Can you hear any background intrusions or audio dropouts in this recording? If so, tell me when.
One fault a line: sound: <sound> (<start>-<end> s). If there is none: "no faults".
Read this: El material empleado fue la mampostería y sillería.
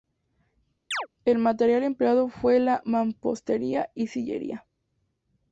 sound: chirp (0.9-1.1 s)